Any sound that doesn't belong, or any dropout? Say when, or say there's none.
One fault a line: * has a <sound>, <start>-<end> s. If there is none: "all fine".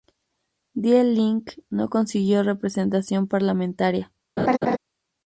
* has a laugh, 4.4-4.8 s